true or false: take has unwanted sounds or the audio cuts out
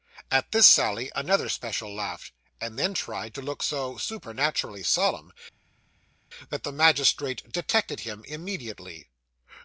false